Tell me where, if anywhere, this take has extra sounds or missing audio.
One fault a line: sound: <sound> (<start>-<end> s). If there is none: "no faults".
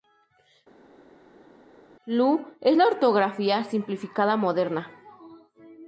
no faults